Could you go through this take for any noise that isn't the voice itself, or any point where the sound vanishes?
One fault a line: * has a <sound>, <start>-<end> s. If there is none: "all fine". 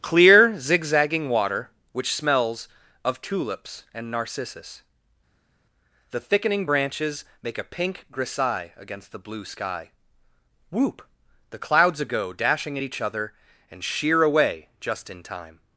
all fine